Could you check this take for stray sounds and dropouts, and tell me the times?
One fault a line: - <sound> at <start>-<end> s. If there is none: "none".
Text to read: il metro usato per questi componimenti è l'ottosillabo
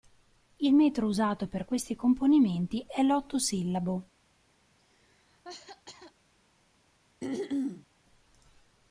- cough at 4.8-6.1 s
- throat clearing at 7.2-7.9 s